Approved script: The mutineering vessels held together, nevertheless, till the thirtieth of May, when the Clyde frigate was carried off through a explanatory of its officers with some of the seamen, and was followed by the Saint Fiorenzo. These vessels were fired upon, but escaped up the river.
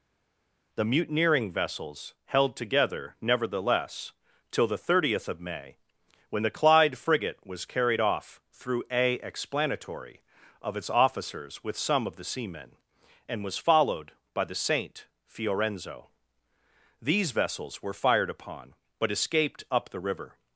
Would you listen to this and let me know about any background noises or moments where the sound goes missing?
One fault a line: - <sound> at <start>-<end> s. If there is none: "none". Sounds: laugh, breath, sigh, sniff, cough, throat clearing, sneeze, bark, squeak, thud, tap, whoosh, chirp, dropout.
none